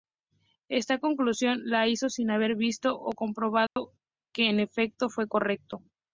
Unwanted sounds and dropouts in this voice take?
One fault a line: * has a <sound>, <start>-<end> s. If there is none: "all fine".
* has a dropout, 3.7-3.8 s